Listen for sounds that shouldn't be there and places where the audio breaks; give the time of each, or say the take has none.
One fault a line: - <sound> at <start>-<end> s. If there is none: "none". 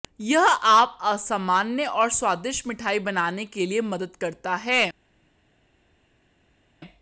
none